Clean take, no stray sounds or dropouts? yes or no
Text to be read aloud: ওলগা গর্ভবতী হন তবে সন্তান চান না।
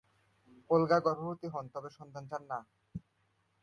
yes